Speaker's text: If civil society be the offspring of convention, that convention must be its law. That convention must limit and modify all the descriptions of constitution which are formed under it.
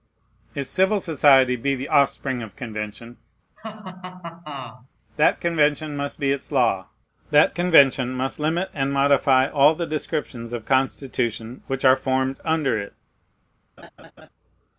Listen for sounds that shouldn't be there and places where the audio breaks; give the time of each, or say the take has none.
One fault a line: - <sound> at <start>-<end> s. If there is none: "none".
- laugh at 3.6-4.9 s
- laugh at 13.8-14.3 s